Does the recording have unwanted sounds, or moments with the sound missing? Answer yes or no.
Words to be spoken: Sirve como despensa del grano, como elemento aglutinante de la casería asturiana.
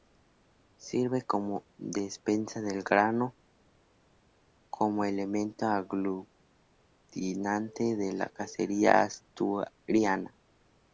no